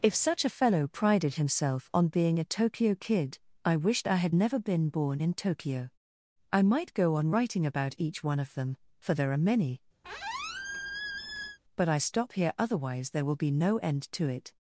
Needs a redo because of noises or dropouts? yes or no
yes